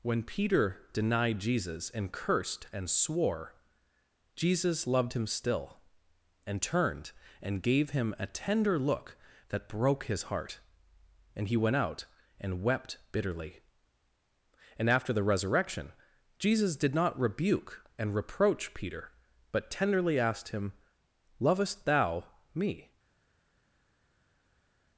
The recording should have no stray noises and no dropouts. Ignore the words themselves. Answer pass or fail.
pass